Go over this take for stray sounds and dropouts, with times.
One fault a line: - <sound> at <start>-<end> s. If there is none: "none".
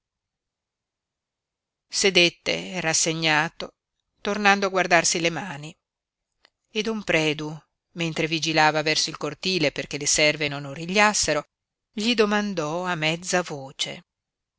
none